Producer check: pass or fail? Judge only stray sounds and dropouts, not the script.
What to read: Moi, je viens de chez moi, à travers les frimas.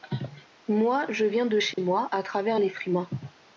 fail